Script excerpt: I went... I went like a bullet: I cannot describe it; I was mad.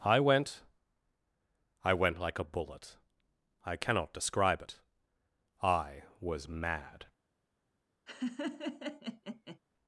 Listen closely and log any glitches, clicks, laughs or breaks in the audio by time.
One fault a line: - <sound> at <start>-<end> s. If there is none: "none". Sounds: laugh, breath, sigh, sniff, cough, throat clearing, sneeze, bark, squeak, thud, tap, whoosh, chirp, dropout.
- laugh at 8.1-9.6 s